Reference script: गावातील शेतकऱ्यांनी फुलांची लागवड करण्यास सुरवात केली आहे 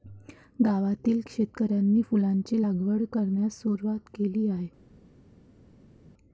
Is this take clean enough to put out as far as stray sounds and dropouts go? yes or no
yes